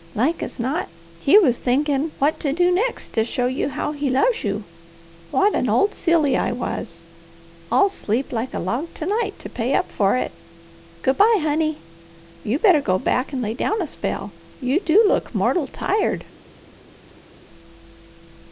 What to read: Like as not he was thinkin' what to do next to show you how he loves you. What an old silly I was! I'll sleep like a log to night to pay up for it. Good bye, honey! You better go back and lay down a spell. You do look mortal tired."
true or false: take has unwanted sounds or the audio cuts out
false